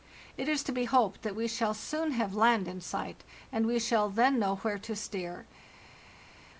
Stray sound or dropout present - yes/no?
no